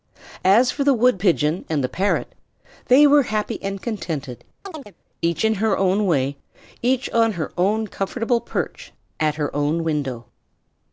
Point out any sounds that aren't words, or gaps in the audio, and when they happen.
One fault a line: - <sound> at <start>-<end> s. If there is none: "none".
- chirp at 4.7-4.9 s